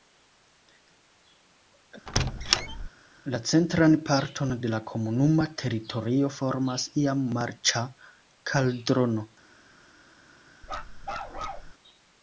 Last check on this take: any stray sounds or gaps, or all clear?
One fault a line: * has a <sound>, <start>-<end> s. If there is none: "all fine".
* has a squeak, 2.1-2.9 s
* has a bark, 10.6-11.7 s